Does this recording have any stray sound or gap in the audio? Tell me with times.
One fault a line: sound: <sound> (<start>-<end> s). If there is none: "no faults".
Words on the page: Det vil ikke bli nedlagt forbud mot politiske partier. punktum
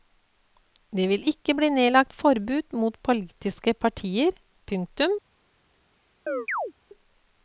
sound: chirp (6.3-6.7 s)